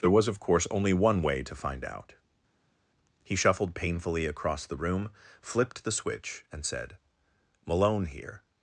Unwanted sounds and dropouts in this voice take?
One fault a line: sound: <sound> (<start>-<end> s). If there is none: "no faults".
no faults